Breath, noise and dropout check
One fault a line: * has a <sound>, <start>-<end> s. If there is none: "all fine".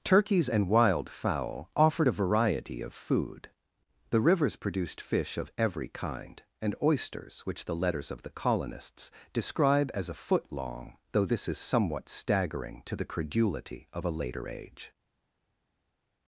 all fine